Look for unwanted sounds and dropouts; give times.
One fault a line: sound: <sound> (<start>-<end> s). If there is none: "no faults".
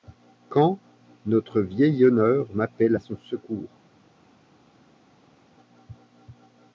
no faults